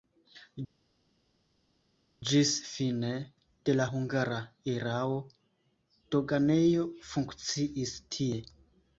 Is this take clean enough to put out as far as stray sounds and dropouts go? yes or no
yes